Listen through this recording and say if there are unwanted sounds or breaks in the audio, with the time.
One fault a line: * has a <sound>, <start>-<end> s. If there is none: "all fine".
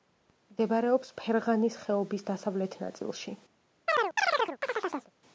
* has a chirp, 3.9-5.1 s